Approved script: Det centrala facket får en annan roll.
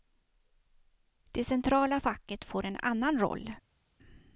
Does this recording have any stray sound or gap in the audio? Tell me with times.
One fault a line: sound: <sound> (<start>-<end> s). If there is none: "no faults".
no faults